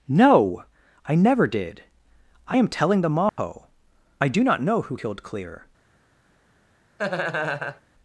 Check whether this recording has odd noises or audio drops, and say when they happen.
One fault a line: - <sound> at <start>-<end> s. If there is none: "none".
- dropout at 3.3-3.4 s
- laugh at 7.0-7.8 s